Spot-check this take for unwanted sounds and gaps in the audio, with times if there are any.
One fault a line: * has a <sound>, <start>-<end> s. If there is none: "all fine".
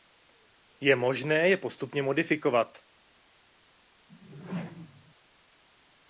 * has a whoosh, 4.1-5.1 s